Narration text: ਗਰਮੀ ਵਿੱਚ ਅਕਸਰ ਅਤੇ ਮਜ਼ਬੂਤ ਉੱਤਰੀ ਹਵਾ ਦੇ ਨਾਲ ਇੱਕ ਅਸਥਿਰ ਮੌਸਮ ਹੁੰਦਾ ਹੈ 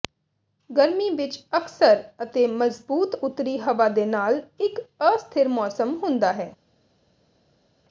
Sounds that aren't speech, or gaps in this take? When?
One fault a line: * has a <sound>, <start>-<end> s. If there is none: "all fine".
all fine